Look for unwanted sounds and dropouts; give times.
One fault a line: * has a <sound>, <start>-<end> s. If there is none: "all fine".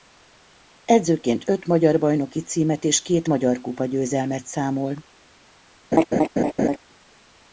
* has a laugh, 5.9-6.8 s